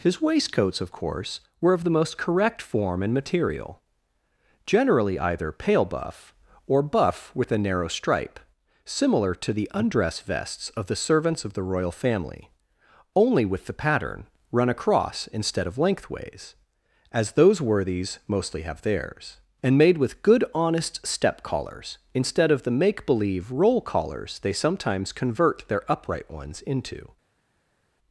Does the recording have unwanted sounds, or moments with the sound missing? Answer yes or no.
no